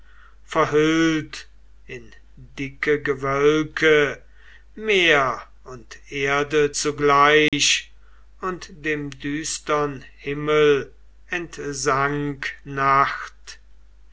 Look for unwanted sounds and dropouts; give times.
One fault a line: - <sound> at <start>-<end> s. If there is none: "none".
- dropout at 7.5-7.5 s